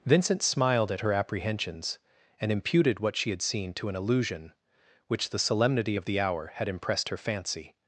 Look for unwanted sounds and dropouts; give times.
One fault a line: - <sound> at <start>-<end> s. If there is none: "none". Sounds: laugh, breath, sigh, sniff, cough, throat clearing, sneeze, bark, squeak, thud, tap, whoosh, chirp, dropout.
none